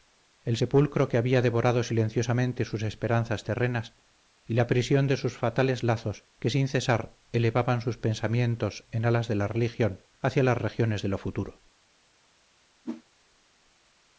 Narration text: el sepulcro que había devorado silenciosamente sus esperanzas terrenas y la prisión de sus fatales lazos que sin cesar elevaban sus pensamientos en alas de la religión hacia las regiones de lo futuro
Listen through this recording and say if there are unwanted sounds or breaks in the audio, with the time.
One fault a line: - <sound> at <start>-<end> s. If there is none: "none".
- whoosh at 12.8-13.0 s